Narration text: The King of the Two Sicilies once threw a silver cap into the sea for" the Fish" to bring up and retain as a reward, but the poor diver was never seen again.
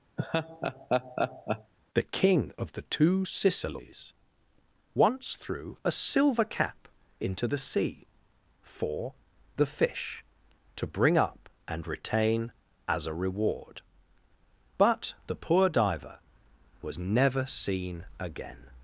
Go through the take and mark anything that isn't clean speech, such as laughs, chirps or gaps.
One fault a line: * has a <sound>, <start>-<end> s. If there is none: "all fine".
* has a laugh, 0.2-1.7 s